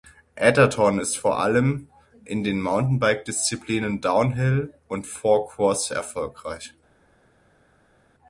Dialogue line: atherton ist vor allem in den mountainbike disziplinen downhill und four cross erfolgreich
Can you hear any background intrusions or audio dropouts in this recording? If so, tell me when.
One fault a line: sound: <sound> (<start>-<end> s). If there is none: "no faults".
no faults